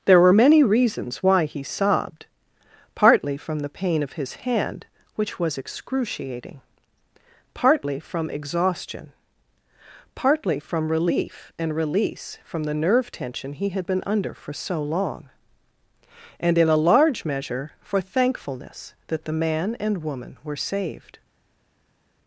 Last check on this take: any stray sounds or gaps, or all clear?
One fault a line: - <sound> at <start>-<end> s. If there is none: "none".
none